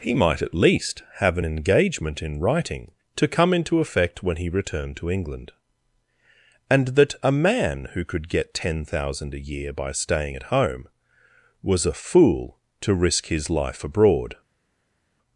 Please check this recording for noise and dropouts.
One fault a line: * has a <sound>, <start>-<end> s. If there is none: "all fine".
all fine